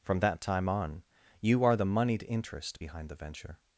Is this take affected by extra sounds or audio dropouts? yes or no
no